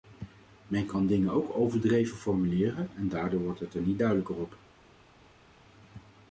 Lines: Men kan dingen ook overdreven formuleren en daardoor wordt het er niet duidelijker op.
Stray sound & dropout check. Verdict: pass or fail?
pass